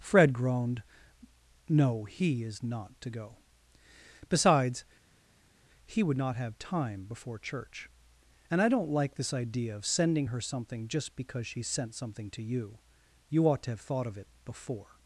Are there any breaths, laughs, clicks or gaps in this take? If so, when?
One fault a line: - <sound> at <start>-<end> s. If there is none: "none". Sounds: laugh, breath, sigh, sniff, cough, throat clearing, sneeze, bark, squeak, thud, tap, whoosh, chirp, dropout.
none